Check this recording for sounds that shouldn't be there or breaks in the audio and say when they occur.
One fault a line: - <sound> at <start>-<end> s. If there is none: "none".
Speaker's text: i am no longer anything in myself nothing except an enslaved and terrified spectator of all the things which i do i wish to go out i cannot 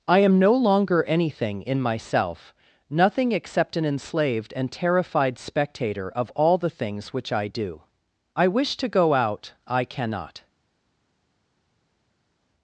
none